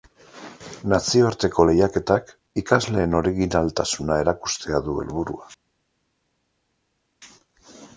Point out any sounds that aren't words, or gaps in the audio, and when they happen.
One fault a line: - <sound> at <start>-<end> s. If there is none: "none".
none